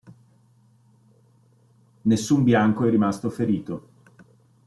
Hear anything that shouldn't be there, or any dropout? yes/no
no